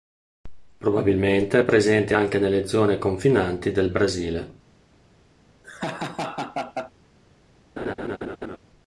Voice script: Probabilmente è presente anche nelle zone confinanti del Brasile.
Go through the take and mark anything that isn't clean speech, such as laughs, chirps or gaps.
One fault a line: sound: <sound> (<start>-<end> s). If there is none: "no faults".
sound: laugh (5.6-6.9 s)
sound: laugh (7.8-8.6 s)